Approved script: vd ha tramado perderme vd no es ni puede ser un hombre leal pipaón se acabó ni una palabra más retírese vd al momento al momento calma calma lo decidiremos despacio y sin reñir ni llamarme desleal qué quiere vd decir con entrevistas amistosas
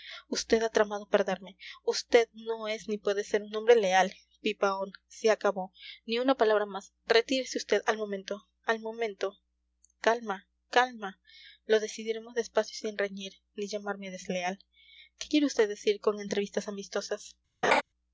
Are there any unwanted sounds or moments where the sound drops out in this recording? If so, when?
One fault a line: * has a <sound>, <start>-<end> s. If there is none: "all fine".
* has a laugh, 17.6-17.8 s